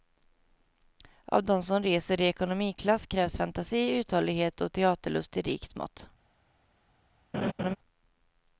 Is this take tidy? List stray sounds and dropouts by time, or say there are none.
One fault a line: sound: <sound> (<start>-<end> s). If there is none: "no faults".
sound: laugh (7.3-7.8 s)